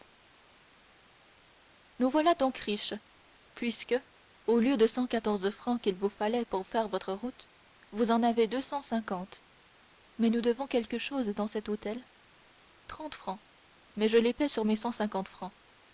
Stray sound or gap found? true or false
false